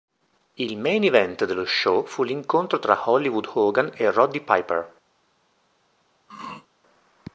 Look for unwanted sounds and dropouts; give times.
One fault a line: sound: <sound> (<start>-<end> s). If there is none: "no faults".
sound: throat clearing (6.3-6.7 s)